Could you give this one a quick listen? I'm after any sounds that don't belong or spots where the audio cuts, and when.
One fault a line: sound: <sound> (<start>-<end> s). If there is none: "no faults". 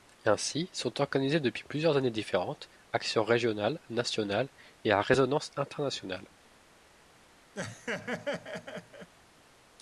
sound: laugh (7.6-9.1 s)